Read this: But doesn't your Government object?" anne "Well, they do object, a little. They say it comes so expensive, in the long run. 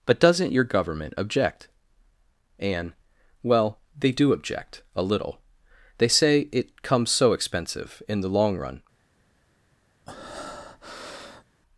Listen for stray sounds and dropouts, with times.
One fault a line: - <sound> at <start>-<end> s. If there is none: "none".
- breath at 10.1-11.4 s